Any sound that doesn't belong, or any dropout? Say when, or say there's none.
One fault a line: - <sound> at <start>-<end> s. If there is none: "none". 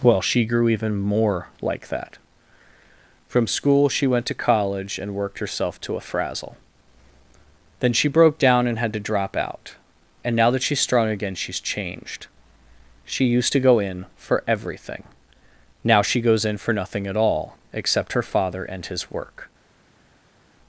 none